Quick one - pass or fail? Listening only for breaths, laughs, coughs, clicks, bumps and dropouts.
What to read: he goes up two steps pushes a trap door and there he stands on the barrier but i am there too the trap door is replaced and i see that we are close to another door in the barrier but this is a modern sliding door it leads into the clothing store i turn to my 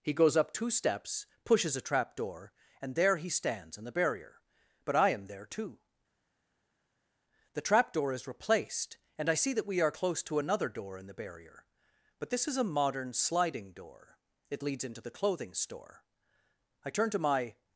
pass